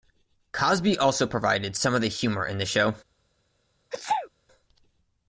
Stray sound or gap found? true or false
true